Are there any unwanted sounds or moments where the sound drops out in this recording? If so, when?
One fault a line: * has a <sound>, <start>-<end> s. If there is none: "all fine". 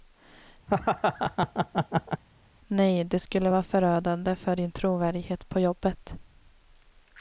* has a laugh, 0.7-2.2 s